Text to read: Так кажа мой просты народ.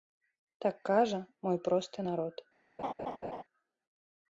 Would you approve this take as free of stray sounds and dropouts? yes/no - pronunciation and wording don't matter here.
no